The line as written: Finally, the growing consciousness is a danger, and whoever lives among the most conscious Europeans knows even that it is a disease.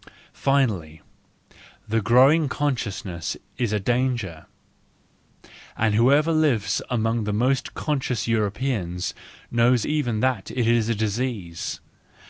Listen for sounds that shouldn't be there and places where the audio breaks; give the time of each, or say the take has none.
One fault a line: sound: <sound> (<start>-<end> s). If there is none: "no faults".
no faults